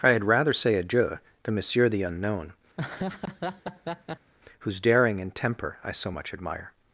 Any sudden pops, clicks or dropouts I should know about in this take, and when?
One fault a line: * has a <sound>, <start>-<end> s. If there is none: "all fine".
* has a laugh, 2.8-4.3 s